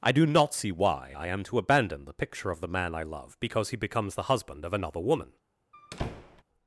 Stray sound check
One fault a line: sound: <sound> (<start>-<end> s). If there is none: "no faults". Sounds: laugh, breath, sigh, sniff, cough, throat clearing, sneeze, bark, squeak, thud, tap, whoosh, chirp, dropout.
sound: squeak (5.7-6.4 s)